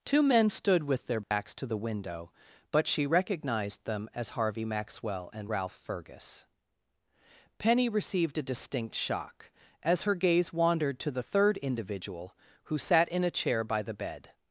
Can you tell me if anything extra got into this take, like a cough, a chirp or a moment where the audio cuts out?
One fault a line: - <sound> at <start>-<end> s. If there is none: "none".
- dropout at 1.2-1.3 s